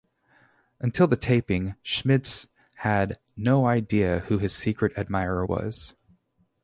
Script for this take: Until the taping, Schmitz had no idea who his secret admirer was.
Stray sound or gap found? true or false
false